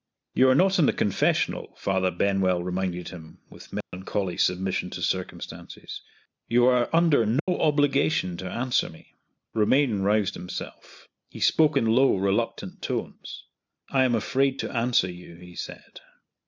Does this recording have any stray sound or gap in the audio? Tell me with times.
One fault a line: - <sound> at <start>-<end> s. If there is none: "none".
- dropout at 3.8-3.9 s
- dropout at 7.4-7.5 s